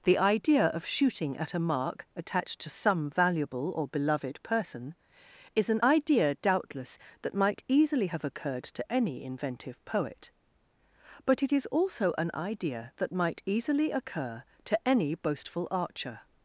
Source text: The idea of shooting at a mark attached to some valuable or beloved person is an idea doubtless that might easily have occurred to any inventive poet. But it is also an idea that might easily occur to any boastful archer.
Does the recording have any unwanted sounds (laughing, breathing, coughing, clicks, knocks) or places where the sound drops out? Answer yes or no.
no